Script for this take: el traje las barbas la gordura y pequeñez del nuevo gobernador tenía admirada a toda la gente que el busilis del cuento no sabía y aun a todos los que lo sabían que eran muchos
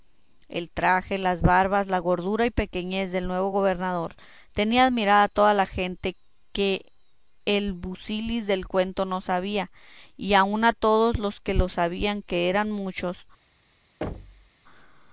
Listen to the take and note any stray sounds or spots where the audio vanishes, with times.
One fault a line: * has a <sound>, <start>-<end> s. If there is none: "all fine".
* has a thud, 14.0-14.5 s